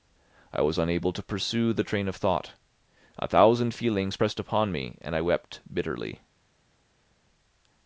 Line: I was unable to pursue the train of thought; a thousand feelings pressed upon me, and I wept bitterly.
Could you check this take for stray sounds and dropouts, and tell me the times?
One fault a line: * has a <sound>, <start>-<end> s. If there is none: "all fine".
all fine